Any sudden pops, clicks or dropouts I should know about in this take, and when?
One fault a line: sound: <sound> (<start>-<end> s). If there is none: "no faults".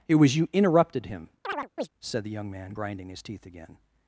sound: chirp (1.4-1.9 s)